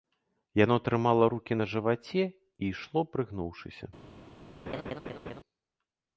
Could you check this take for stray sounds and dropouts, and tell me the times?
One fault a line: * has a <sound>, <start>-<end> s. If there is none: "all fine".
* has a laugh, 4.7-5.4 s